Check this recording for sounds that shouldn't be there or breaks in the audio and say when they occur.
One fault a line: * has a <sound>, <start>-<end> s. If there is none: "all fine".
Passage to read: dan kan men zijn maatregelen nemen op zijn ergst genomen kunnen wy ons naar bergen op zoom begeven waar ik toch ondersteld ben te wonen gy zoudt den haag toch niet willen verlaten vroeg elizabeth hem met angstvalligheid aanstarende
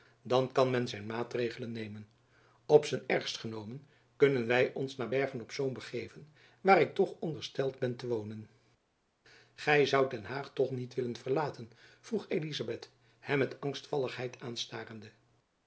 all fine